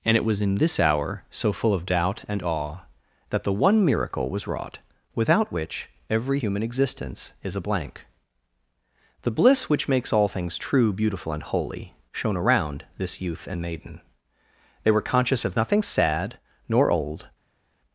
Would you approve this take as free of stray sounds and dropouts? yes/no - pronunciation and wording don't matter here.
yes